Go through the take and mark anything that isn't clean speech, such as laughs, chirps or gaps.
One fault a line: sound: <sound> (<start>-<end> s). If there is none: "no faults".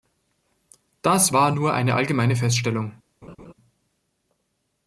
sound: laugh (3.2-3.5 s)